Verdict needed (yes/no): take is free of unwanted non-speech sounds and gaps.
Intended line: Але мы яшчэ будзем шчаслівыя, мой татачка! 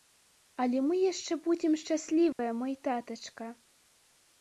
no